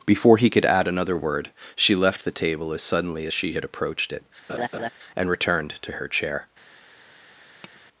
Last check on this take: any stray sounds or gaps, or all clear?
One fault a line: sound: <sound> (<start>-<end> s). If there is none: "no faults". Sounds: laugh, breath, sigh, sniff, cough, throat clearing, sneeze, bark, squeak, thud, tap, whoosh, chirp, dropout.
sound: laugh (4.5-4.9 s)
sound: tap (7.6-7.8 s)